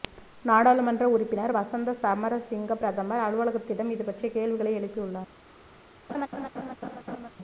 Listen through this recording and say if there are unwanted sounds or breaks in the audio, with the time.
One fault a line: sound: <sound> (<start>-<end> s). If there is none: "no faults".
sound: laugh (6.1-7.3 s)